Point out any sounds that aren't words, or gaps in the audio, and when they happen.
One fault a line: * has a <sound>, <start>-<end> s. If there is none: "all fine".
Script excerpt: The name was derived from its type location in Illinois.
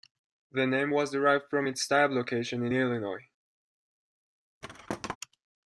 * has a thud, 4.6-5.2 s